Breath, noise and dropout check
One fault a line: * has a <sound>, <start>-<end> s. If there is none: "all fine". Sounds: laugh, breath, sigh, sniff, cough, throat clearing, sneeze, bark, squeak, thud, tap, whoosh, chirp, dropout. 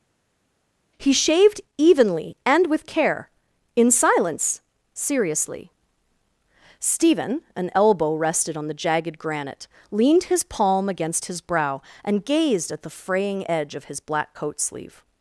all fine